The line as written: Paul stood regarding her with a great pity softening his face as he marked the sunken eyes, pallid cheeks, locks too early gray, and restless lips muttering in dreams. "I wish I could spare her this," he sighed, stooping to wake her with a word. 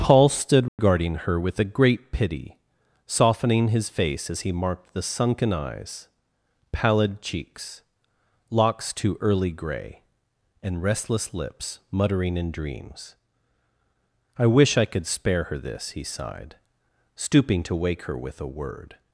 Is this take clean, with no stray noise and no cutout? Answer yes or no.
no